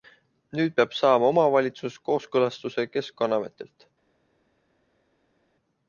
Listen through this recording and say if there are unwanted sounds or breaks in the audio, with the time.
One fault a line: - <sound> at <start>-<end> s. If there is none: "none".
none